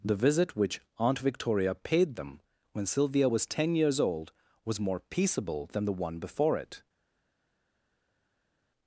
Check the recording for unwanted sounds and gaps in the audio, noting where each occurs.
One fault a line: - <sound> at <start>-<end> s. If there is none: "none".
none